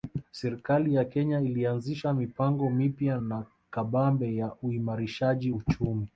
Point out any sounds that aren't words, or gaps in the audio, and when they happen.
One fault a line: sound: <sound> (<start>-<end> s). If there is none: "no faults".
no faults